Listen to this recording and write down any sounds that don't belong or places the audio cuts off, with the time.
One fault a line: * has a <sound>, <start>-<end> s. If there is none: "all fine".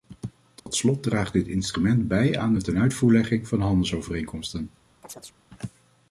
* has a dropout, 0.6-0.7 s
* has a chirp, 5.0-5.3 s